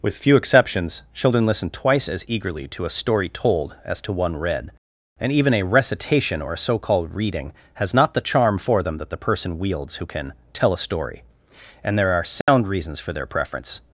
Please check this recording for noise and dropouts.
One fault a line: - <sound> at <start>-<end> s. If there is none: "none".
- dropout at 12.4-12.5 s